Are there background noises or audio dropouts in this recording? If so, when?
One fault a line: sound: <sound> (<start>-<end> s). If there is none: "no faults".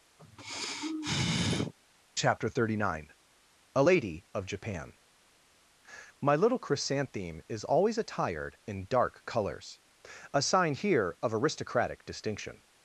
sound: sigh (0.2-1.7 s)